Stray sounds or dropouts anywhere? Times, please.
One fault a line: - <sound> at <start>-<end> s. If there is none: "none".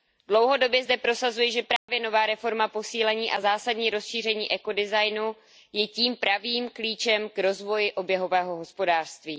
- dropout at 1.8-1.9 s